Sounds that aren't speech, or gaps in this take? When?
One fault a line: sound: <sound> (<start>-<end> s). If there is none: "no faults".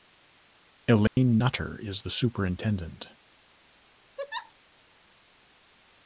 sound: dropout (1.1-1.2 s)
sound: laugh (4.2-4.5 s)